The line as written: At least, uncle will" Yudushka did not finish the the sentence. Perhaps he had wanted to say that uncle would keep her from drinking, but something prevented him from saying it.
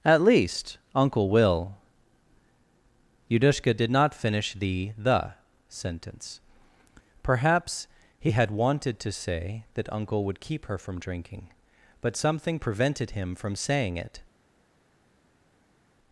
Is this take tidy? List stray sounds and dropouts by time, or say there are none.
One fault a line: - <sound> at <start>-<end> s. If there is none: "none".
none